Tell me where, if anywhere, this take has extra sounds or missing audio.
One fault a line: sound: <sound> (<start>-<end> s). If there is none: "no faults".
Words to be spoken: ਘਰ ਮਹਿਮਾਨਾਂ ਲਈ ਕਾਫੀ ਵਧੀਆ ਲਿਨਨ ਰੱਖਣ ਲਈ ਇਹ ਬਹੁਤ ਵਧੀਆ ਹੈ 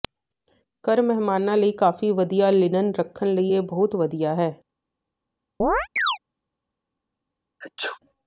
sound: chirp (5.6-6.2 s)
sound: sneeze (7.6-8.0 s)